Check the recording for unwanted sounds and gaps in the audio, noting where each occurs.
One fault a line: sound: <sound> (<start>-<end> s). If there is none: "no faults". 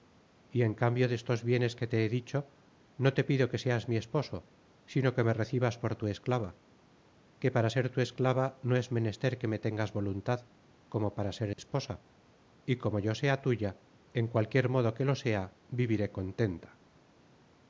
sound: dropout (11.5-11.6 s)